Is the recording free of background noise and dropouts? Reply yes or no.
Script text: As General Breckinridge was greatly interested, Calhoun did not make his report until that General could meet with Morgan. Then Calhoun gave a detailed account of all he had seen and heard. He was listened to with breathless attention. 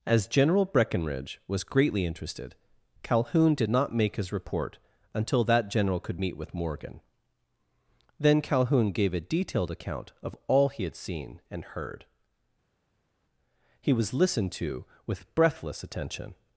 yes